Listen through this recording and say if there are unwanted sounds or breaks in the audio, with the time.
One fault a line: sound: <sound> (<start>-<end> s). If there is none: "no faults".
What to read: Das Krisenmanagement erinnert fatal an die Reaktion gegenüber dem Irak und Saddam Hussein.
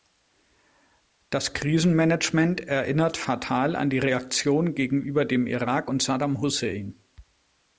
no faults